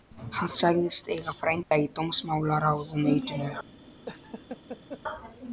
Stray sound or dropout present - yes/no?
yes